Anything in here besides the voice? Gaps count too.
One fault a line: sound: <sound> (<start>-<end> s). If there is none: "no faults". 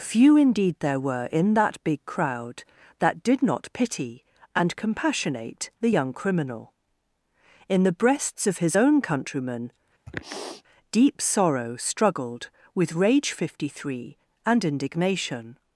sound: sniff (10.1-10.6 s)